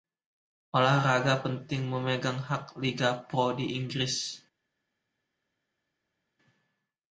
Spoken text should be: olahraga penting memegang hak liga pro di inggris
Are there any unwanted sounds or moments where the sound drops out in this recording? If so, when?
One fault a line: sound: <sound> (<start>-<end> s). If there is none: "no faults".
no faults